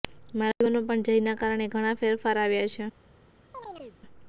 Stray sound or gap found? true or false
true